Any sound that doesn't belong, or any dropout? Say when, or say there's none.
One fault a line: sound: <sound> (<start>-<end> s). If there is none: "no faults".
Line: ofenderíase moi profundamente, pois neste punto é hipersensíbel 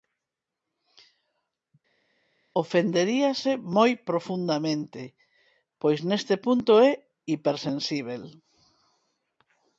no faults